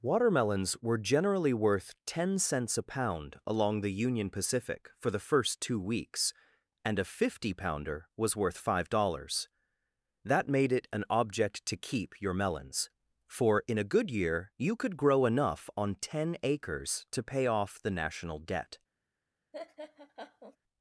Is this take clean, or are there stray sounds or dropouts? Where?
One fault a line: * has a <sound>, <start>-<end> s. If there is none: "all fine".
* has a laugh, 19.5-20.6 s